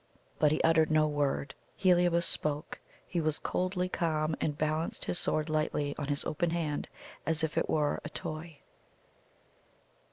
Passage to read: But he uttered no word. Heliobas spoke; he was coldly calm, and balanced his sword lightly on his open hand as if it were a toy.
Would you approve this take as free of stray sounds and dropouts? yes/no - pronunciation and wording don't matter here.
yes